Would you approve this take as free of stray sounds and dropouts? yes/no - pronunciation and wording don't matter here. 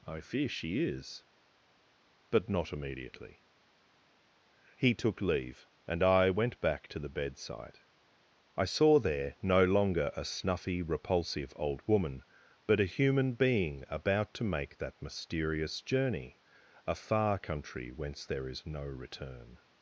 yes